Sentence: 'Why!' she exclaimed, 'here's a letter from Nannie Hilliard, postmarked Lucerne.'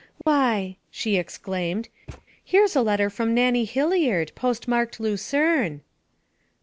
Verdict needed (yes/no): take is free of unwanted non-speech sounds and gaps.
no